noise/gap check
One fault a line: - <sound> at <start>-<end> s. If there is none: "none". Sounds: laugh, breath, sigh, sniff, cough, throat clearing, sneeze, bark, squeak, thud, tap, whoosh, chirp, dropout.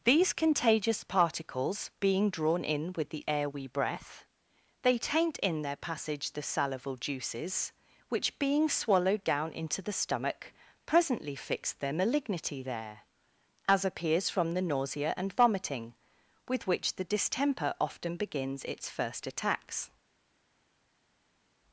none